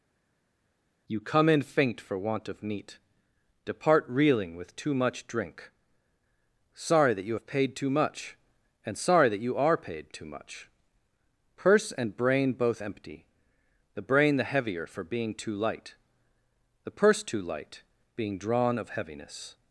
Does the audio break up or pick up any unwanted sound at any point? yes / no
no